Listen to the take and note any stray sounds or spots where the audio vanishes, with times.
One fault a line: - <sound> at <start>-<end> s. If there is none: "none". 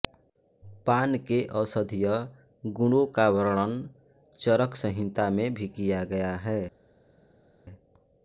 none